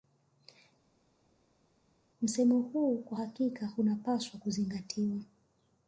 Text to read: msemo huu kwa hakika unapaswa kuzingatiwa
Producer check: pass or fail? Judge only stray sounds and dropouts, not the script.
pass